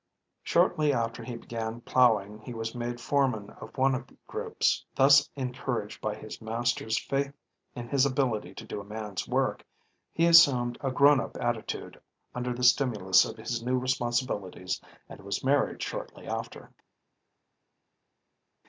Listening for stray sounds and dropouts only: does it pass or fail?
pass